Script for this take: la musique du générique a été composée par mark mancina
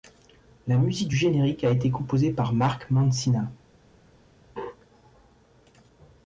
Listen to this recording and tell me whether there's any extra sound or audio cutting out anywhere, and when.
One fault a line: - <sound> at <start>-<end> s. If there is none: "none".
none